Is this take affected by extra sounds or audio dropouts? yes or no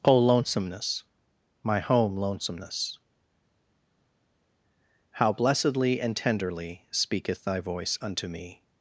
no